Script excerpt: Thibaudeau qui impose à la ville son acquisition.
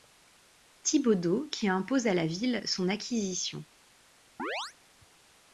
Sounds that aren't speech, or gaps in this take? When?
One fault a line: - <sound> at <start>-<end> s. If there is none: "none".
- chirp at 4.4-4.7 s